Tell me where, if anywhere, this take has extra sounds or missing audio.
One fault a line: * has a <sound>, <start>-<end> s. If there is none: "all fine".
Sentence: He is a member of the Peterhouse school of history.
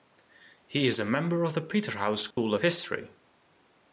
* has a dropout, 2.3-2.4 s